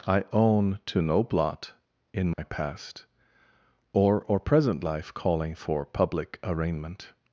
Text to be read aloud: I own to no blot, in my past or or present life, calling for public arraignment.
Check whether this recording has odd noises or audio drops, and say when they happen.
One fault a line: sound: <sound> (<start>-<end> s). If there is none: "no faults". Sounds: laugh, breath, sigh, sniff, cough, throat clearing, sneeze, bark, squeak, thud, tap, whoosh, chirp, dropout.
sound: dropout (2.3-2.4 s)